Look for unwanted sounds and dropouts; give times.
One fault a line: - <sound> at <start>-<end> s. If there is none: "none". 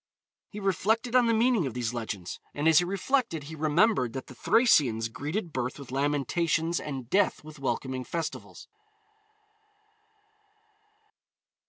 none